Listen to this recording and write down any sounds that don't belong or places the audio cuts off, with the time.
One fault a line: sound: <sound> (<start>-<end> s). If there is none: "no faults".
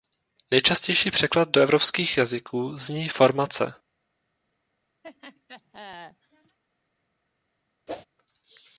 sound: laugh (5.0-6.6 s)
sound: whoosh (7.9-8.1 s)